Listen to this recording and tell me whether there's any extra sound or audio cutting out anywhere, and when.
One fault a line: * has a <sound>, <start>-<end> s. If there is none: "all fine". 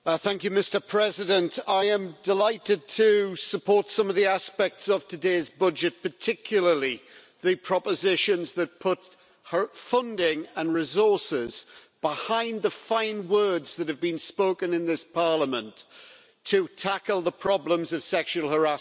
all fine